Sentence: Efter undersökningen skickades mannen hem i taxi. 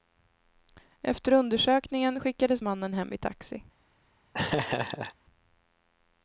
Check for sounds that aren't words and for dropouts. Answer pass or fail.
fail